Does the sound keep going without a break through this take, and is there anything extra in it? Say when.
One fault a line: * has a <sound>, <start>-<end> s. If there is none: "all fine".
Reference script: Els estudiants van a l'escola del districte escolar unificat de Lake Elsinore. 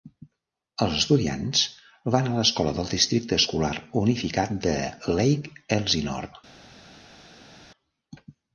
all fine